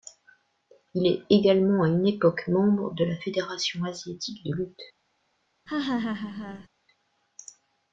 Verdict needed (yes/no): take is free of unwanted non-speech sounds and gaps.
no